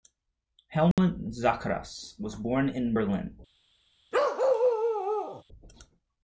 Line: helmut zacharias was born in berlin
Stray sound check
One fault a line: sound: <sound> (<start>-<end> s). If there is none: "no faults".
sound: dropout (0.9-1.0 s)
sound: bark (4.1-5.4 s)